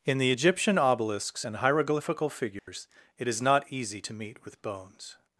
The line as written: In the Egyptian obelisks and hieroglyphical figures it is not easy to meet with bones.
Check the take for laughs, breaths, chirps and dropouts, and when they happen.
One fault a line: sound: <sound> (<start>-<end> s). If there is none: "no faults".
sound: dropout (2.6-2.7 s)